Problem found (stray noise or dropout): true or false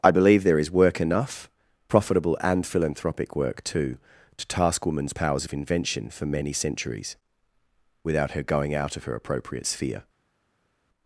false